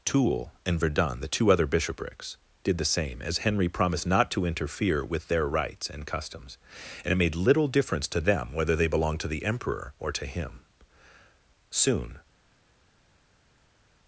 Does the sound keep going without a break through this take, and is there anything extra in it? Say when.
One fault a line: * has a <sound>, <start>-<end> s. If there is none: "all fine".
all fine